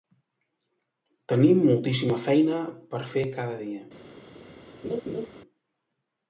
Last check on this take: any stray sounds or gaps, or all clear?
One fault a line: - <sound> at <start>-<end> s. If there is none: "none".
- laugh at 4.8-5.3 s